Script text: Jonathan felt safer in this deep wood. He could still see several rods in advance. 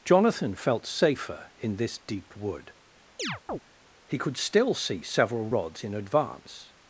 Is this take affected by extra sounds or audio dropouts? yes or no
yes